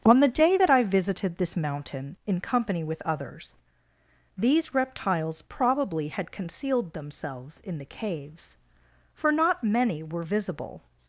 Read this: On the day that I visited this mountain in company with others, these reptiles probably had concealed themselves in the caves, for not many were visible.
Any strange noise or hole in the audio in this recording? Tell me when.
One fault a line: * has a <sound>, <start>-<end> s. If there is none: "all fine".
all fine